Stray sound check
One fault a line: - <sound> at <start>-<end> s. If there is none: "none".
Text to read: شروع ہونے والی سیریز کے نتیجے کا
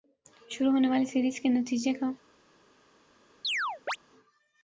- chirp at 3.4-4.0 s